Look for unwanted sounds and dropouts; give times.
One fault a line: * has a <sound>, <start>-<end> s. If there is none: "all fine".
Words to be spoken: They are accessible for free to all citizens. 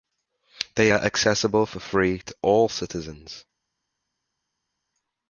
all fine